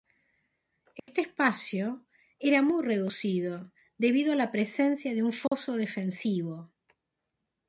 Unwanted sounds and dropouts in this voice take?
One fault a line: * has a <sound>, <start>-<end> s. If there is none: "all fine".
* has a dropout, 1.0-1.1 s
* has a dropout, 5.5-5.5 s